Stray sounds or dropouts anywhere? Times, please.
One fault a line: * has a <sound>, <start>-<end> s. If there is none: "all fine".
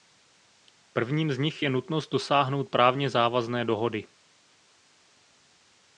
all fine